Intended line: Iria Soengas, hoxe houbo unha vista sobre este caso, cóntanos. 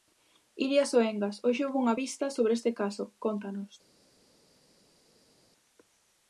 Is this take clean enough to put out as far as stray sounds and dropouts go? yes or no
yes